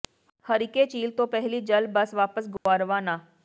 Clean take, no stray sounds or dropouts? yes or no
no